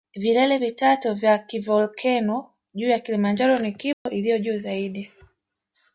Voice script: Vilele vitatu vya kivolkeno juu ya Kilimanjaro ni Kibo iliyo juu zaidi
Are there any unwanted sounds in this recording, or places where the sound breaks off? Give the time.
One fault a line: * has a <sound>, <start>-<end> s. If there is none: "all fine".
* has a dropout, 3.9-4.1 s